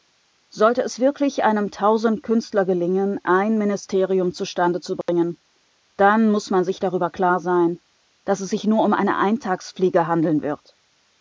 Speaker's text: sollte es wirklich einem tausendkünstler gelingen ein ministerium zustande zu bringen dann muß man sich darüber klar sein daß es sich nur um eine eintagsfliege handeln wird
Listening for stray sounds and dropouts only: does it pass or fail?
fail